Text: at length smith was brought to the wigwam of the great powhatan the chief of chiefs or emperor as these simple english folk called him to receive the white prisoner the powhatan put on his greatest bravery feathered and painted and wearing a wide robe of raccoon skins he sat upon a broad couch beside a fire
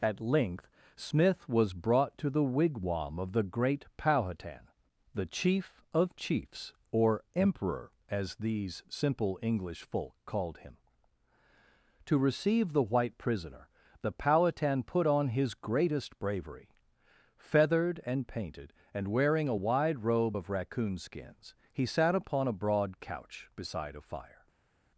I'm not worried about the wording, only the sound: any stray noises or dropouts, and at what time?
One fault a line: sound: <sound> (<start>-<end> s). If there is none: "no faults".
no faults